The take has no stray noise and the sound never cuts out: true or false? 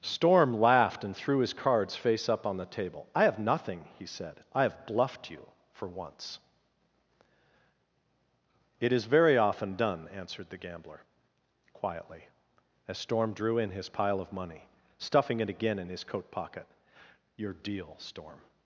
true